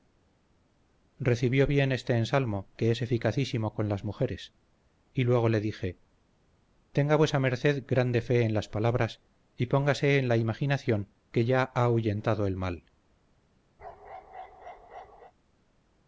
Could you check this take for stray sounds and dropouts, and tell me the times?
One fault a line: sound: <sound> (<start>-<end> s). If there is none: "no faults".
sound: bark (13.8-15.3 s)